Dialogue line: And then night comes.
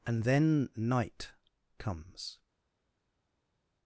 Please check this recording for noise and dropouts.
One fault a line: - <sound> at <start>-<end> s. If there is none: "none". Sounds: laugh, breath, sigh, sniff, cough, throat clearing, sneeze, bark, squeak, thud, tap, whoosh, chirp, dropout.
none